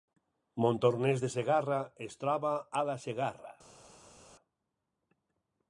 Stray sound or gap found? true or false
false